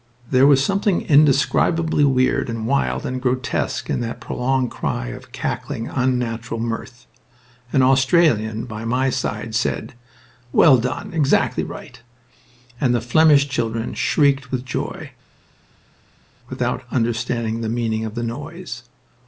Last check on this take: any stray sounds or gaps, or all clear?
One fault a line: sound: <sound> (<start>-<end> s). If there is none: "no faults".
no faults